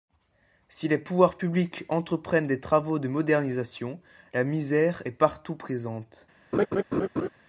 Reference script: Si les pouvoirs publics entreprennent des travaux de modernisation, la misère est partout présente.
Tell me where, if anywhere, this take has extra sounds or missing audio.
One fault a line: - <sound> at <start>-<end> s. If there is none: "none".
- laugh at 6.5-7.3 s